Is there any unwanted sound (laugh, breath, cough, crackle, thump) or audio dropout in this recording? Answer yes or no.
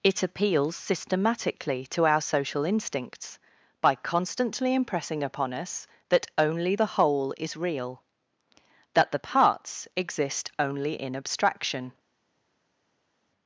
no